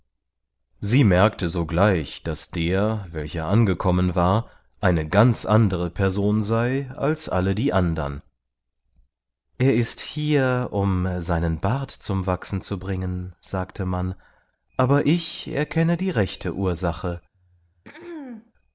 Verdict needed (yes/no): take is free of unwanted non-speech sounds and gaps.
no